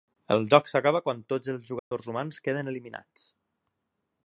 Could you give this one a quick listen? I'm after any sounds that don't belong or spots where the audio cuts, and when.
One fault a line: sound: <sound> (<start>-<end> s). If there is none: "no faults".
sound: dropout (1.8-1.9 s)